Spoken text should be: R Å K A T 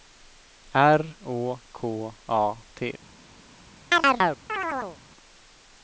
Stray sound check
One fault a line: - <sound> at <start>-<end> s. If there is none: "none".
- chirp at 3.9-5.0 s